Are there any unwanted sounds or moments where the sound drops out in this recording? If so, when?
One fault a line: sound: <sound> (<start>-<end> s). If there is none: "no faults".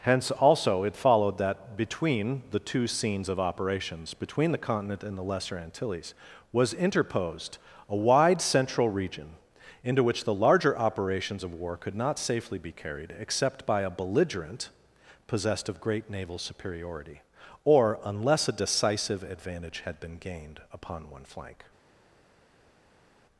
no faults